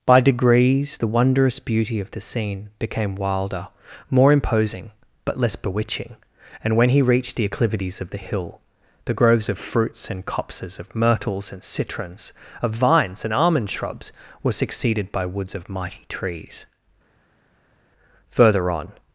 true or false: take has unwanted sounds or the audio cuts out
false